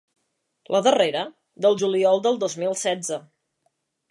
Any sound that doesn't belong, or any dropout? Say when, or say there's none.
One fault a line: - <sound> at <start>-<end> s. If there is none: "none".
none